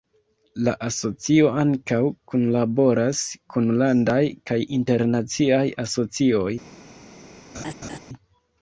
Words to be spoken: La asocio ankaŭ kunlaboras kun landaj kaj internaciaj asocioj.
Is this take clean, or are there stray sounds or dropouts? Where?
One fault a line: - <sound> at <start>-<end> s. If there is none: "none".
- laugh at 7.5-8.0 s